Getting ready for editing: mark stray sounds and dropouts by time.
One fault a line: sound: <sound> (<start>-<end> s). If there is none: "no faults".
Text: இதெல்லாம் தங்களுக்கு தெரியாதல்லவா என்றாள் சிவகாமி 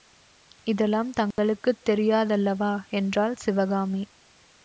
sound: dropout (1.3-1.4 s)